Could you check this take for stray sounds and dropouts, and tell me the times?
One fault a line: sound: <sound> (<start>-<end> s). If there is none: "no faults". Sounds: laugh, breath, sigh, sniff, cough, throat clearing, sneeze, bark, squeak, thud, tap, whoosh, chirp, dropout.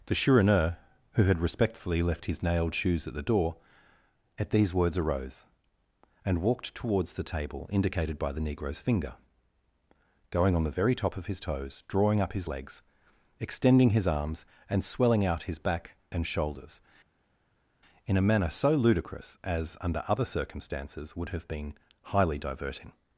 no faults